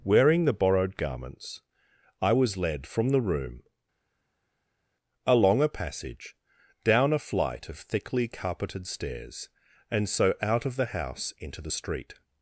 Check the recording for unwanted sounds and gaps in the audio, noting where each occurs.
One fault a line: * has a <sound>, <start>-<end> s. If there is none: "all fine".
all fine